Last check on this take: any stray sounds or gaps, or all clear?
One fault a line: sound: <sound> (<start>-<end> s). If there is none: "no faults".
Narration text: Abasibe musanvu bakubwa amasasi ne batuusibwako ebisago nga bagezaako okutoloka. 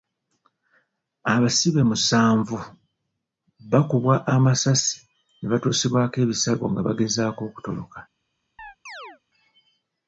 sound: chirp (8.6-9.2 s)